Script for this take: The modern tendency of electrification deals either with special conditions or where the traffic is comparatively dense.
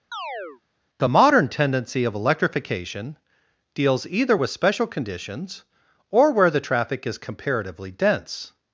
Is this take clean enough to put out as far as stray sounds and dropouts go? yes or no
no